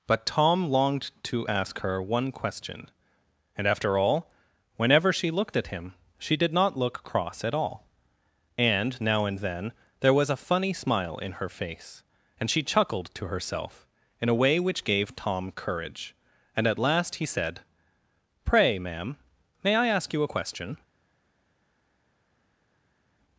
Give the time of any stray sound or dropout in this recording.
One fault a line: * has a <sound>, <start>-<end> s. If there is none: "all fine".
all fine